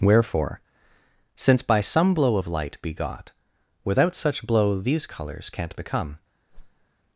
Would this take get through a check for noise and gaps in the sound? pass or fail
fail